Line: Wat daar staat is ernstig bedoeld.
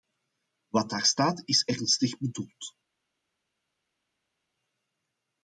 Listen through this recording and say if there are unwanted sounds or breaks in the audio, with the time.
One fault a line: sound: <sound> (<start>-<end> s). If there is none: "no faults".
no faults